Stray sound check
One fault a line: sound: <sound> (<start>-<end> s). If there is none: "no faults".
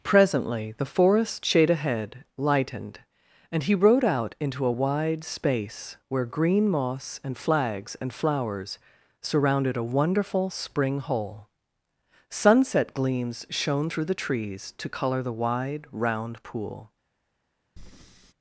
sound: breath (17.8-18.3 s)